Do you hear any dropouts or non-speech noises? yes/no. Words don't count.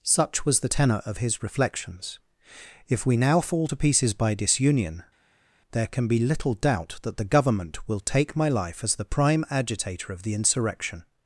no